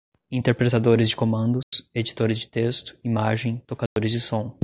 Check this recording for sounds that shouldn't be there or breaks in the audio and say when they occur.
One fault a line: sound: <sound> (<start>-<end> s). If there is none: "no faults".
sound: dropout (1.6-1.7 s)
sound: dropout (3.9-4.0 s)